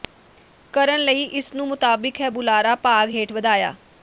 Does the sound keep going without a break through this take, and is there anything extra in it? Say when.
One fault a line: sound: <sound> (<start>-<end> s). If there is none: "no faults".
no faults